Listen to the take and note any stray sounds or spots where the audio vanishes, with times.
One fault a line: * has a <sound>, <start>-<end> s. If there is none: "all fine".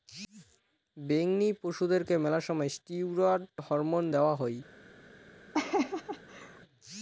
* has a laugh, 5.5-6.6 s